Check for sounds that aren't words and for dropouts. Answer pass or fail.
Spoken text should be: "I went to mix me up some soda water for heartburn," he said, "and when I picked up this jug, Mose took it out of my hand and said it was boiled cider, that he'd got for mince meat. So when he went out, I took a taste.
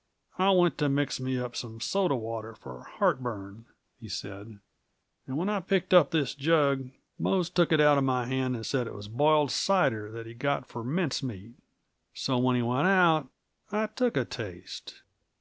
pass